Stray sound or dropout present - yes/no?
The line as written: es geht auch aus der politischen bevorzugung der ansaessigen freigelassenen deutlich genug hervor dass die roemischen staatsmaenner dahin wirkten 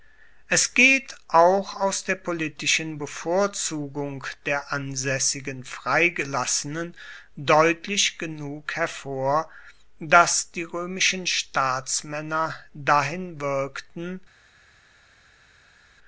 no